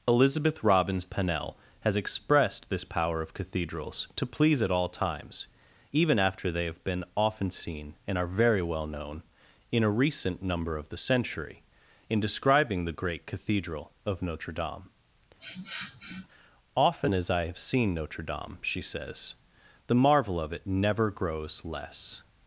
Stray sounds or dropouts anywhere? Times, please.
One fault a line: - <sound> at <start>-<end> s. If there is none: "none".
- sniff at 15.4-16.3 s